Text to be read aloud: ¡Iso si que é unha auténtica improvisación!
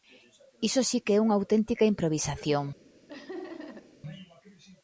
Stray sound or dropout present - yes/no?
yes